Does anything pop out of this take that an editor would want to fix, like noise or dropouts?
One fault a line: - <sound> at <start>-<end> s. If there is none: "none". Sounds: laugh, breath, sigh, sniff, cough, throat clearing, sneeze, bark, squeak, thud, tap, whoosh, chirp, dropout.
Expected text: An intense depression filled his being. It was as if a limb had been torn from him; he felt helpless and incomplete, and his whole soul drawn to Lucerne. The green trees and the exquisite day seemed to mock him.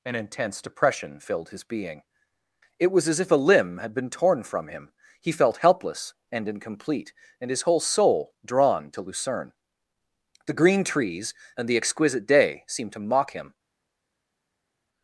none